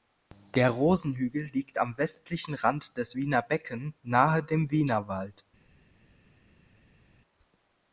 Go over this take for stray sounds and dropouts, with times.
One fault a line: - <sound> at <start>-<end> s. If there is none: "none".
none